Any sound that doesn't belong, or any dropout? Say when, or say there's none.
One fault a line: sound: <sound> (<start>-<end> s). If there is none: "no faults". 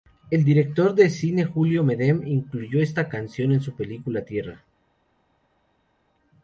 no faults